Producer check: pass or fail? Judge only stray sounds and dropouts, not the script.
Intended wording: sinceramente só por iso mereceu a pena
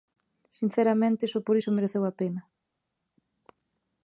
pass